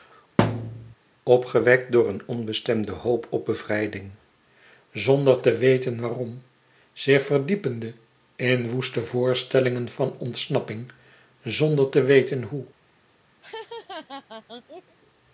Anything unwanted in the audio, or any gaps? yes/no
yes